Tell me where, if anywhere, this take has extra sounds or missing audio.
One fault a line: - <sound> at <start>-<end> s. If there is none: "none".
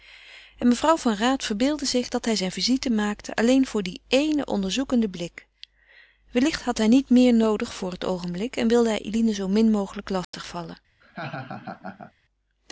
- dropout at 10.2-10.3 s
- laugh at 11.0-12.1 s